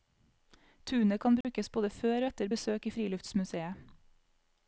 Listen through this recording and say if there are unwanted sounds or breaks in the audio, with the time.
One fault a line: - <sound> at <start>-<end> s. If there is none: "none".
- dropout at 1.4-1.4 s